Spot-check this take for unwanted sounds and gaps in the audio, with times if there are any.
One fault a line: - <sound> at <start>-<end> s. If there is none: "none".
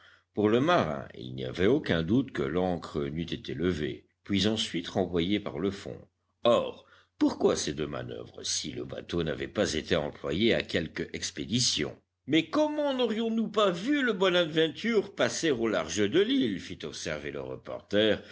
none